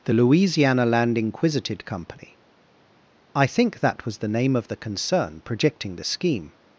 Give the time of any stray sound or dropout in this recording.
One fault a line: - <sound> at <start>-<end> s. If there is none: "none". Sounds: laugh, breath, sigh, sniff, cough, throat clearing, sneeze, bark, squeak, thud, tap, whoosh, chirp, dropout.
none